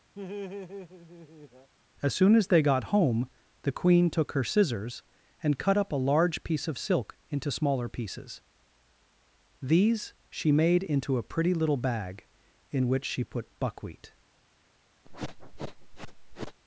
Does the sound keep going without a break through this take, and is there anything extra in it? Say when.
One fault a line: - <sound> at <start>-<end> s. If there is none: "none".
- laugh at 0.1-1.7 s
- sniff at 15.0-16.6 s